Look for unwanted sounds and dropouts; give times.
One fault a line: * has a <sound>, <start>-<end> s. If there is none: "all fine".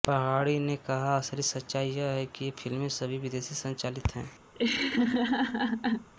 * has a laugh, 4.5-6.1 s